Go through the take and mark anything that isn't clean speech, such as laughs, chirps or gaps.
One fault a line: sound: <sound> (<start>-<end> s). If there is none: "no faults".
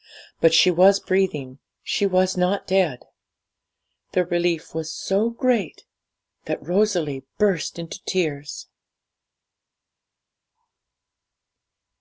no faults